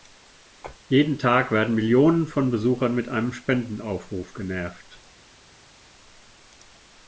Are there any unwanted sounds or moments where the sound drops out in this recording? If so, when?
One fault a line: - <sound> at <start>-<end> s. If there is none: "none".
none